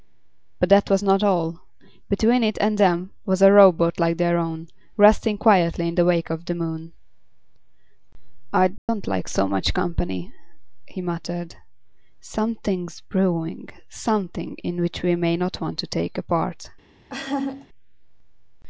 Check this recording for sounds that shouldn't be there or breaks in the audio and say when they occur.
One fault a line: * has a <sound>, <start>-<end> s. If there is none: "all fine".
* has a dropout, 8.8-8.9 s
* has a laugh, 17.1-17.7 s